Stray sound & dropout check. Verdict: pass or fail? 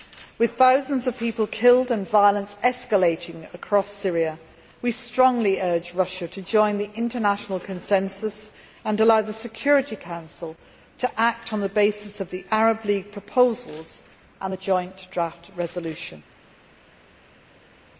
pass